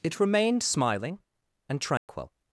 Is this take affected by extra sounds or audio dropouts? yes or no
yes